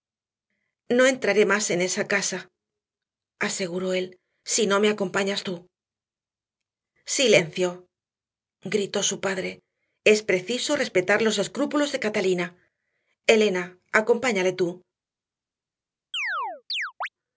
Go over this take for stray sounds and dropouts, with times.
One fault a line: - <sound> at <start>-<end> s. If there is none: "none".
- chirp at 16.1-17.1 s